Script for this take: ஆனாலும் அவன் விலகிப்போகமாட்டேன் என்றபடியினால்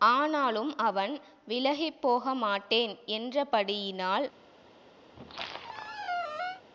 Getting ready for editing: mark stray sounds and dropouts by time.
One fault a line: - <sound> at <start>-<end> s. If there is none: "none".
- squeak at 5.1-6.6 s